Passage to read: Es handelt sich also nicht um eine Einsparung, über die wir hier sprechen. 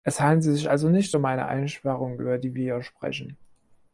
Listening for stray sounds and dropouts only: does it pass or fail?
pass